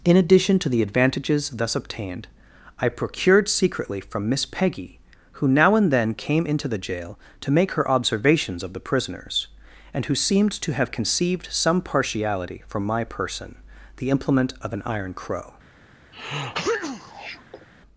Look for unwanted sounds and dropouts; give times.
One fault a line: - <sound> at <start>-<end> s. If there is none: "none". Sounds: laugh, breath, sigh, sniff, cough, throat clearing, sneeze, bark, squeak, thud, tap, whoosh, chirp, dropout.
- sneeze at 16.1-17.7 s